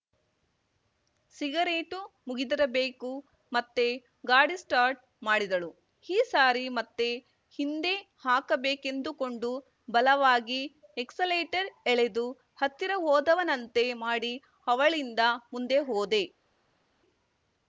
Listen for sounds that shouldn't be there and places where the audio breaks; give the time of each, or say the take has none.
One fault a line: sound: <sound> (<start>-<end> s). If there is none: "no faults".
no faults